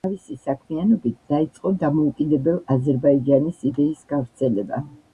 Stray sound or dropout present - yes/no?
no